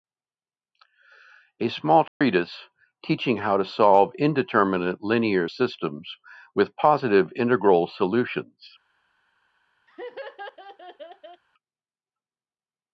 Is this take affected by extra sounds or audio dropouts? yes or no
yes